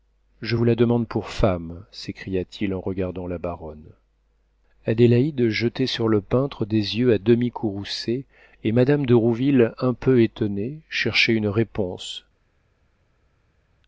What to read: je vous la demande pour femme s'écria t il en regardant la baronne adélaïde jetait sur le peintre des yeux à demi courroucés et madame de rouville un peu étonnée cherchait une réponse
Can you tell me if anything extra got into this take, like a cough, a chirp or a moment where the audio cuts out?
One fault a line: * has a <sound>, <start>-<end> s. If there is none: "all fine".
all fine